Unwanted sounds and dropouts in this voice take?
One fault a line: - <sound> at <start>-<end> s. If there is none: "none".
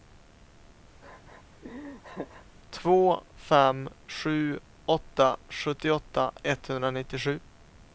- laugh at 1.0-2.5 s